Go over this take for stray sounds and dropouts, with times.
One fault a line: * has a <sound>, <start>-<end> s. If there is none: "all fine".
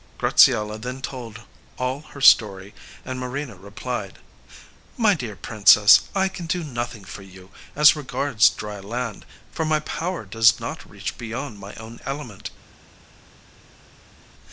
all fine